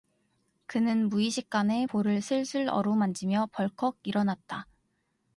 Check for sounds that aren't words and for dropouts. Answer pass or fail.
pass